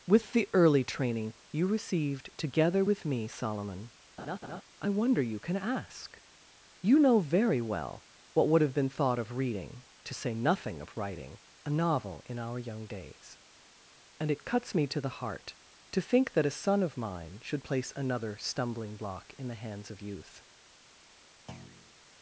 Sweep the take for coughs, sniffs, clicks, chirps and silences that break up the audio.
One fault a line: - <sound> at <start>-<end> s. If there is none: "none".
- laugh at 4.2-4.6 s
- thud at 21.5-21.9 s